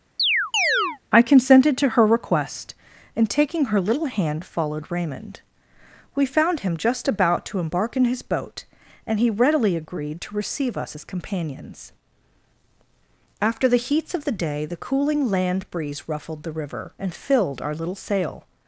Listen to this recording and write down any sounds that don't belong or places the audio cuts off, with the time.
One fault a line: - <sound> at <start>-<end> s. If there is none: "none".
- chirp at 0.2-1.0 s